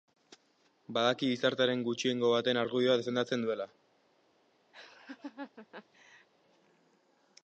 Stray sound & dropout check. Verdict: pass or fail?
fail